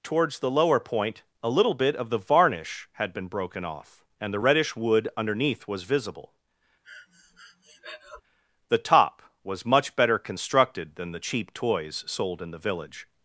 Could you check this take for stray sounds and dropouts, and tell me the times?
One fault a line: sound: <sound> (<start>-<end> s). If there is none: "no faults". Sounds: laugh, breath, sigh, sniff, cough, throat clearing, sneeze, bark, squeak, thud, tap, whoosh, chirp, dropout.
sound: breath (6.8-8.2 s)